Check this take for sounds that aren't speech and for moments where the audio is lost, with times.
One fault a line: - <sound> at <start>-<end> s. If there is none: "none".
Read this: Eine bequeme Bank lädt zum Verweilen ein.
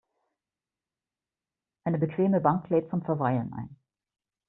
none